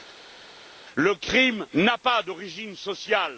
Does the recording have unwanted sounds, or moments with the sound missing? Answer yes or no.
no